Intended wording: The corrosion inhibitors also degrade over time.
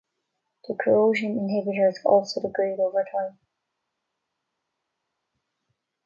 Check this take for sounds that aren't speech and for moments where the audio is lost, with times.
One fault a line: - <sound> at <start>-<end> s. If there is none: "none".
none